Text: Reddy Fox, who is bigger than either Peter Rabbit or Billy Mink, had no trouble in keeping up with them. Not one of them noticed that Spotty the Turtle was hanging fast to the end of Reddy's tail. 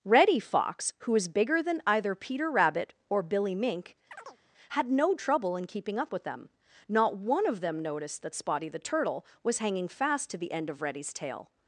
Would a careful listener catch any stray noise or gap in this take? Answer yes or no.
yes